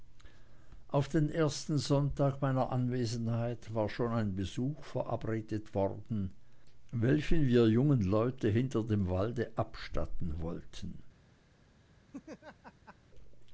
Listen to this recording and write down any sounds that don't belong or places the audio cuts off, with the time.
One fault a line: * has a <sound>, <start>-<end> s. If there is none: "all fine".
* has a laugh, 12.1-13.0 s